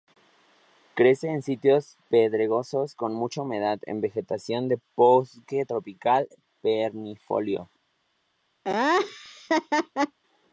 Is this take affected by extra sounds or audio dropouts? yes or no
yes